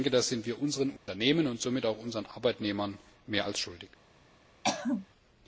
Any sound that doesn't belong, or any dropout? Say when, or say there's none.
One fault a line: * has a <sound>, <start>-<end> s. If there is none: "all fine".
* has a dropout, 1.0-1.1 s
* has a throat clearing, 4.6-5.1 s